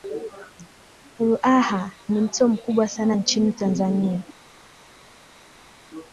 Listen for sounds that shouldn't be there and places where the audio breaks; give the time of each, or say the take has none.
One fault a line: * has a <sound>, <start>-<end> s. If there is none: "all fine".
all fine